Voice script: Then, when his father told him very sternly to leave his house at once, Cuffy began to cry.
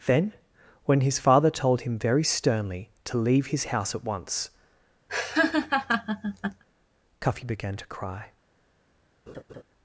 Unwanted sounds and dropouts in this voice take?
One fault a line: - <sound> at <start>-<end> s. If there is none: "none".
- laugh at 5.1-6.6 s
- laugh at 9.3-9.6 s